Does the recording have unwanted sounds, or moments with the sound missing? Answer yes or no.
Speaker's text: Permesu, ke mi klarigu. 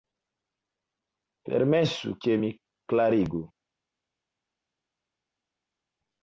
no